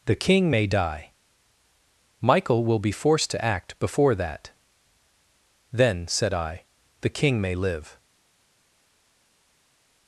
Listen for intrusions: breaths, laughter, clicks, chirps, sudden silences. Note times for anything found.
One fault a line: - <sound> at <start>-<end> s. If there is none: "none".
none